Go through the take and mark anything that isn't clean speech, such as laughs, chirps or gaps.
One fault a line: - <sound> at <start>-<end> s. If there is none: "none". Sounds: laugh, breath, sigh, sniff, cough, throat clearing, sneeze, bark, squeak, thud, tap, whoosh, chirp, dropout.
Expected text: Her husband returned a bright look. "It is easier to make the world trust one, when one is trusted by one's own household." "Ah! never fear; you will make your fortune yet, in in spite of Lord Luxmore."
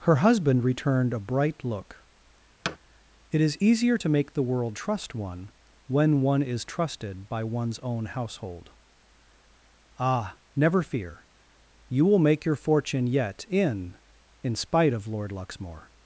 - thud at 2.6-2.8 s